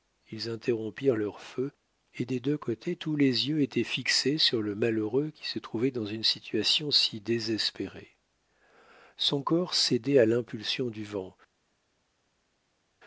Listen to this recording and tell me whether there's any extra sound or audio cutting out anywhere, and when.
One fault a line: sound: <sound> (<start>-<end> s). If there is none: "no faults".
no faults